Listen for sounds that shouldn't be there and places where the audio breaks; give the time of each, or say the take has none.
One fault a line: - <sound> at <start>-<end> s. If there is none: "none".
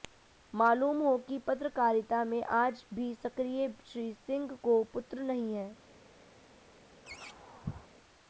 - laugh at 7.0-7.9 s